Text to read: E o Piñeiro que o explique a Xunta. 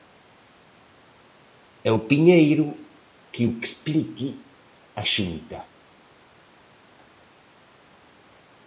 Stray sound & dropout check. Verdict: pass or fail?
pass